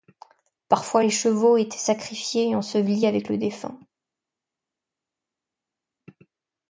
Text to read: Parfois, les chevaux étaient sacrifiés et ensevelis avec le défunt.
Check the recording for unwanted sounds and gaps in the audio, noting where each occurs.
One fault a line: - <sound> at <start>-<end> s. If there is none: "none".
none